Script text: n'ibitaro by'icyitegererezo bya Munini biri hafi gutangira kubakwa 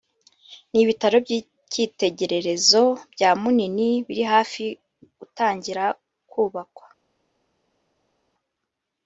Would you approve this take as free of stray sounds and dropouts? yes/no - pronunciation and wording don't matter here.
yes